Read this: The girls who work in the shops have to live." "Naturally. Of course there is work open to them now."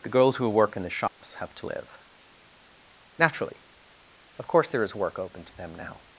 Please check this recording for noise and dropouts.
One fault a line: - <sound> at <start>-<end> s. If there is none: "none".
- dropout at 1.1-1.2 s